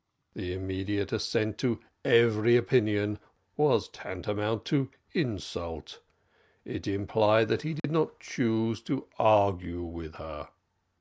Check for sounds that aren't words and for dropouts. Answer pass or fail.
fail